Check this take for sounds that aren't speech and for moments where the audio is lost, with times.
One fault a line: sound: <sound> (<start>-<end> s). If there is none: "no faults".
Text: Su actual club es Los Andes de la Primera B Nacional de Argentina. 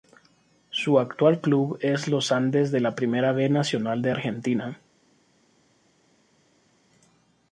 no faults